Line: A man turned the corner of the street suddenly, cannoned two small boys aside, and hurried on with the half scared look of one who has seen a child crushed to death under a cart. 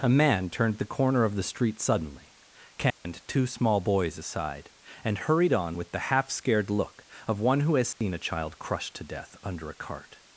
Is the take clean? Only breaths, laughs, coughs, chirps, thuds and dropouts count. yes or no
no